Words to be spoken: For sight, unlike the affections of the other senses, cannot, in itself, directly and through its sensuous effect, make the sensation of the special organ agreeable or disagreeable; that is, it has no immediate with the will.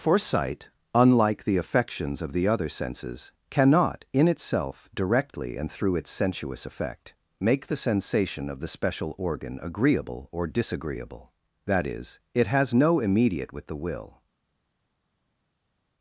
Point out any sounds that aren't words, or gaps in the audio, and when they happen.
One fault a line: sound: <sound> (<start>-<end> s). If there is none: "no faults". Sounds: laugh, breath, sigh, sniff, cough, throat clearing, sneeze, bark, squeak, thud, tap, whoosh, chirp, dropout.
no faults